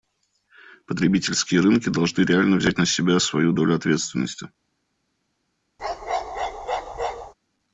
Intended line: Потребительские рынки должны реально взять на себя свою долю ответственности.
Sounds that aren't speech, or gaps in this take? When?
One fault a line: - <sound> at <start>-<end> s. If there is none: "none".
- bark at 5.8-7.3 s